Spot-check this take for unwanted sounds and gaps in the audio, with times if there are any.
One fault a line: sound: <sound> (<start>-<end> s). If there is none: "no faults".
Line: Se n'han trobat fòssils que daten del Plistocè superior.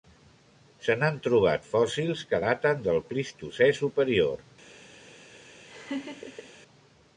sound: laugh (5.7-6.5 s)